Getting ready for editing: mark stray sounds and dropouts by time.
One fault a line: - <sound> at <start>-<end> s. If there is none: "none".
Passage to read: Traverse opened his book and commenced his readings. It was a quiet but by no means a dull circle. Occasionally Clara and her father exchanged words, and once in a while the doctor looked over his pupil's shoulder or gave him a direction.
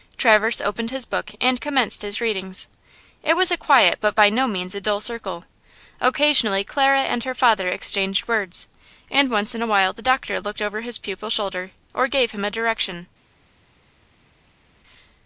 none